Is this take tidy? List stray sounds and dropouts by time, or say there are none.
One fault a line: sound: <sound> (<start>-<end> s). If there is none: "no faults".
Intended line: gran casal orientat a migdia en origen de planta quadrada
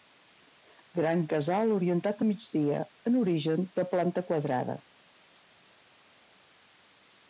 no faults